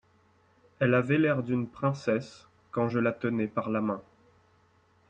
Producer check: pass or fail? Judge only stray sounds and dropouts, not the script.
pass